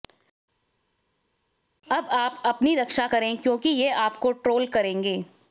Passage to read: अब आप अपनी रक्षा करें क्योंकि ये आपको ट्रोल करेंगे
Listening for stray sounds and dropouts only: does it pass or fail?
pass